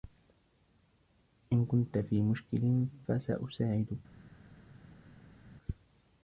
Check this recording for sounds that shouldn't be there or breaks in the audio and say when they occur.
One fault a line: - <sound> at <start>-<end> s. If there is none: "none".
none